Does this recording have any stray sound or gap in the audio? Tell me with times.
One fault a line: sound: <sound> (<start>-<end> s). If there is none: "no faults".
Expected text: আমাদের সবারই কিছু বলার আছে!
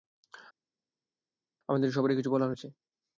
no faults